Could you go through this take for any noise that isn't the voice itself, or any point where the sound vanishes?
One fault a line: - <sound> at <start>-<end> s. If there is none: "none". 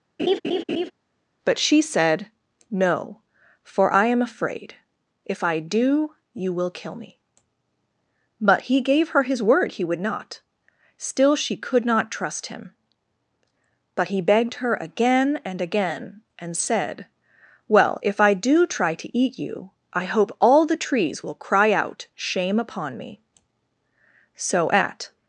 - laugh at 0.2-0.9 s